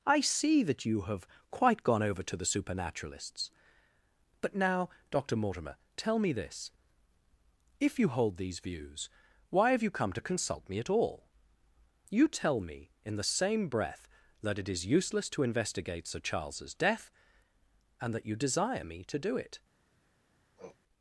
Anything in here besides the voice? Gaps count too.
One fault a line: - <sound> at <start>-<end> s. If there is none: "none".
- sniff at 20.6-20.8 s